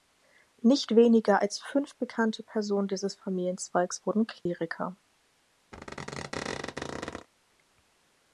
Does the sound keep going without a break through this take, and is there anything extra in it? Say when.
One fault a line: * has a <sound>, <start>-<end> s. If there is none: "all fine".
* has a dropout, 4.4-4.5 s
* has a squeak, 5.7-7.3 s